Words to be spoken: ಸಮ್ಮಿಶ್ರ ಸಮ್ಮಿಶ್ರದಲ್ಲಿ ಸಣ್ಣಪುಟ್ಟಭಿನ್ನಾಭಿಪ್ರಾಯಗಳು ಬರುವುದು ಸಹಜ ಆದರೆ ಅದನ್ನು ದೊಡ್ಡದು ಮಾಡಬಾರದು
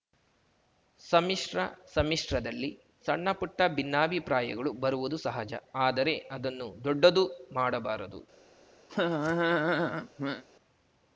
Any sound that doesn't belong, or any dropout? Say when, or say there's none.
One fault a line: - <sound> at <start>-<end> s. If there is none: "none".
- laugh at 8.9-10.4 s